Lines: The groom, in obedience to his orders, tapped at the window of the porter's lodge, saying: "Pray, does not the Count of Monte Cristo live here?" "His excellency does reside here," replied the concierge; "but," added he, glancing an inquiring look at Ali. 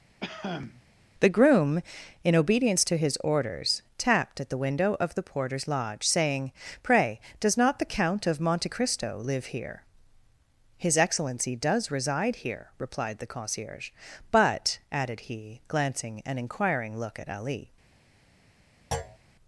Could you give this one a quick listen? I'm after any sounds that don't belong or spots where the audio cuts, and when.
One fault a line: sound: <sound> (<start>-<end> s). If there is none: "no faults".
sound: cough (0.2-0.8 s)
sound: thud (18.9-19.2 s)